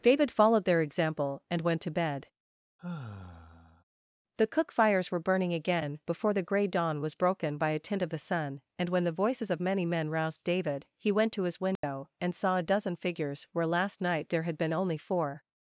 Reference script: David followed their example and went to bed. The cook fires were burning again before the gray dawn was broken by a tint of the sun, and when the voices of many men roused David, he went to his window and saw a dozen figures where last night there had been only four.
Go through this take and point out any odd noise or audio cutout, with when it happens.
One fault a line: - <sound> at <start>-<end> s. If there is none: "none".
- sigh at 2.8-3.8 s
- dropout at 11.8-11.8 s